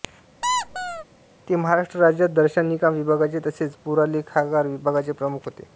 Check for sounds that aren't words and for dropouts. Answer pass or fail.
fail